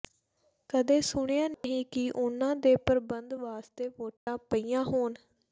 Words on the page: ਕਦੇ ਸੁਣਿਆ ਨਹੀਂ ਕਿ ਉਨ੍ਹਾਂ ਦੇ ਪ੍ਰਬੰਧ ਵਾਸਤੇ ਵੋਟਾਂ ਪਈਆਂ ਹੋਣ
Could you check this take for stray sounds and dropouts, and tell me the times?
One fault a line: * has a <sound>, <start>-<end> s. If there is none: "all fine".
* has a dropout, 1.5-1.6 s
* has a dropout, 4.2-4.3 s